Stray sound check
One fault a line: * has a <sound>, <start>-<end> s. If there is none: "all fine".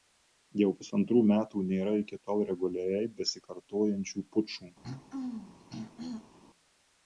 * has a throat clearing, 4.8-6.4 s